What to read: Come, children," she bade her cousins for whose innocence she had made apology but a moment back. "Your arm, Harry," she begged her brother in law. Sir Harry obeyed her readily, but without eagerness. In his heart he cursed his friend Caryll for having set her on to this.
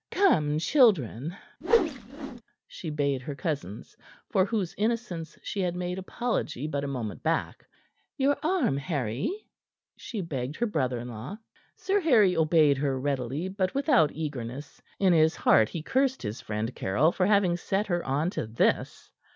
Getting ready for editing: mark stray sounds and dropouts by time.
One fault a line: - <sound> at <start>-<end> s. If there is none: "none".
- whoosh at 1.6-2.4 s